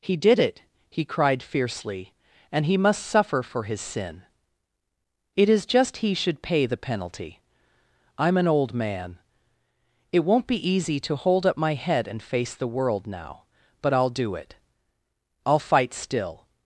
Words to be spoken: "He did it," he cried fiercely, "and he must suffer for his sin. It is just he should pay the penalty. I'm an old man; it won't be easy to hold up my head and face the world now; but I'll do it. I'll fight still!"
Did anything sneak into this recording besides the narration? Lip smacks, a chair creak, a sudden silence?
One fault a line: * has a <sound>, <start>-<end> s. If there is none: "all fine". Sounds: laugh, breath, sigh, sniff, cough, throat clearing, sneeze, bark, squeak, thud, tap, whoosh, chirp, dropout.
all fine